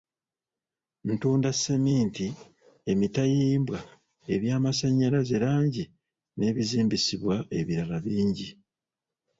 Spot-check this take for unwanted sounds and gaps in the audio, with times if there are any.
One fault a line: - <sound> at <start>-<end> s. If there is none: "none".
none